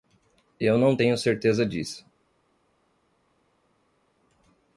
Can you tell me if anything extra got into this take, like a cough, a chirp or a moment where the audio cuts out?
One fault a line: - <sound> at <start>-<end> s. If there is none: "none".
none